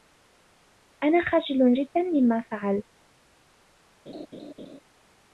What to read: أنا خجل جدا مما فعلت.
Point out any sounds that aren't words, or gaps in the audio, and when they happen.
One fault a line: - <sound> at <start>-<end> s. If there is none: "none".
- laugh at 4.1-4.8 s